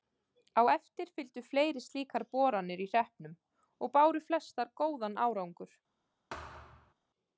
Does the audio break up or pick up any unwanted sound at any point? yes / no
yes